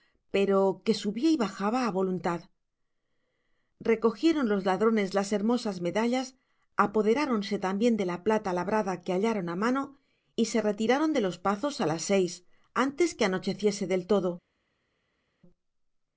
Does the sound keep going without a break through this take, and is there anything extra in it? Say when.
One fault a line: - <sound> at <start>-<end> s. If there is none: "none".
none